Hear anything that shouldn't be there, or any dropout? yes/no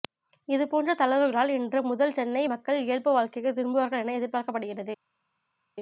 no